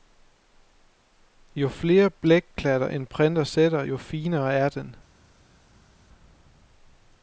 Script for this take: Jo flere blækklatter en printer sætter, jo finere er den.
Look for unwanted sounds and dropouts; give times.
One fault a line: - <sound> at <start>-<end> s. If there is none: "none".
none